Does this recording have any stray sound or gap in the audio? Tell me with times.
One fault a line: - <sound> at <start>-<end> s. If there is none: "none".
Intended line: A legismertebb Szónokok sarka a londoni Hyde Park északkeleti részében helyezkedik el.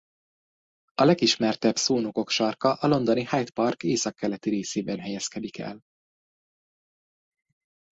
none